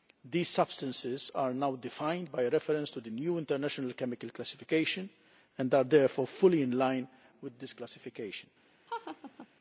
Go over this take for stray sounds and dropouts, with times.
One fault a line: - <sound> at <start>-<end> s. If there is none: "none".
- laugh at 8.9-9.5 s